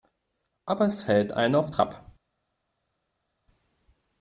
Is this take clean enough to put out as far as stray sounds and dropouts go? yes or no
yes